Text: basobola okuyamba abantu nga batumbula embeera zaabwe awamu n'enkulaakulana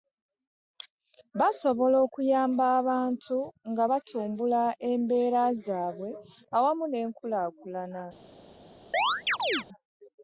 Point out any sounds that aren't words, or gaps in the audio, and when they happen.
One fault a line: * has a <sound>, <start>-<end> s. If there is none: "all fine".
* has a chirp, 8.9-9.6 s